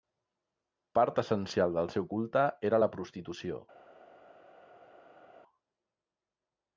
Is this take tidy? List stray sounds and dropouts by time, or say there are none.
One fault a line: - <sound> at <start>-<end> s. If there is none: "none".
none